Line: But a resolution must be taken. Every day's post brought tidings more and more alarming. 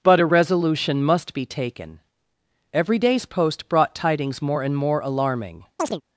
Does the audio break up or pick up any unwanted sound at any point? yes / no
yes